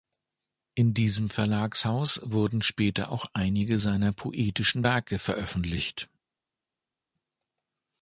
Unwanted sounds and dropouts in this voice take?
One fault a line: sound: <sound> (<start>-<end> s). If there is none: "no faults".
no faults